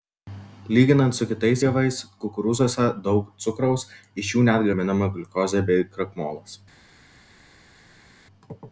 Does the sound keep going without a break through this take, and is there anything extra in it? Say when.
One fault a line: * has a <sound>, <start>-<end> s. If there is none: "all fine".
all fine